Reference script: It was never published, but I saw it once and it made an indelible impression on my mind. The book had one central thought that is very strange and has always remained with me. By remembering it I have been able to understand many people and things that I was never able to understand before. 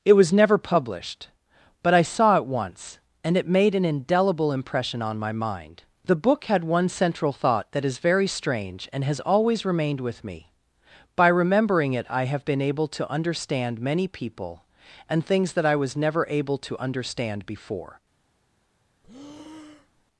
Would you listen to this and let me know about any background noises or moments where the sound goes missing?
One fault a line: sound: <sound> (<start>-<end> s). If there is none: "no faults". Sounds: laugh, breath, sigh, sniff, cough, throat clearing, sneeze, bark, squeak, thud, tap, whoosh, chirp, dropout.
sound: breath (19.0-20.1 s)